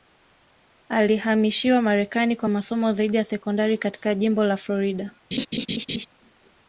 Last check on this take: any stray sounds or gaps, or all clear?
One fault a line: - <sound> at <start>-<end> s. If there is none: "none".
- laugh at 5.3-6.1 s